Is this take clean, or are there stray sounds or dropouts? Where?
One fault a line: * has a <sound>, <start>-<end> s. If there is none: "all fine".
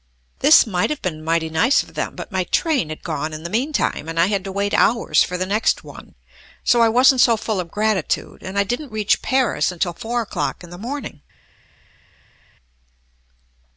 all fine